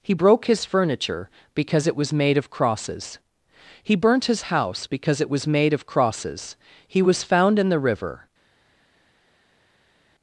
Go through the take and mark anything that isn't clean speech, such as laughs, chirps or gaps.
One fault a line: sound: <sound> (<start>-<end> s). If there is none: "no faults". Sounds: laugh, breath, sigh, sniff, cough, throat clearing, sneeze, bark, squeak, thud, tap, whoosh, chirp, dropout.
no faults